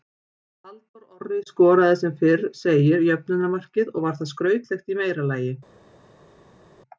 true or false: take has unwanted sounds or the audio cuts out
false